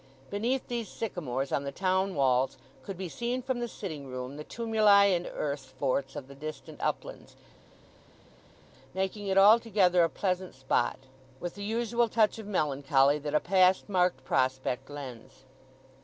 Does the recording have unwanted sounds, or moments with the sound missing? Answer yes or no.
no